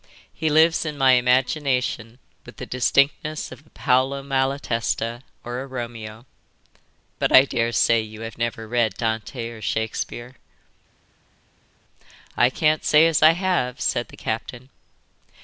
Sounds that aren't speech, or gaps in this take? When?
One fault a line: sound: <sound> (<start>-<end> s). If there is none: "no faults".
no faults